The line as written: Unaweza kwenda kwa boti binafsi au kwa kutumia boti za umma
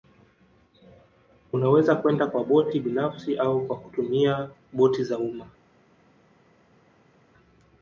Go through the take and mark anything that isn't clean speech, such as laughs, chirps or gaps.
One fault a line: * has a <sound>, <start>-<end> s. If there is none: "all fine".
all fine